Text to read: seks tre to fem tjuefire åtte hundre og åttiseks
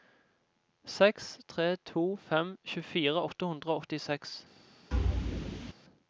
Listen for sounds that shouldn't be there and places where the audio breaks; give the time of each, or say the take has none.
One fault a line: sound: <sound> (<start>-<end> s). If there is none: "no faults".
sound: thud (4.9-5.7 s)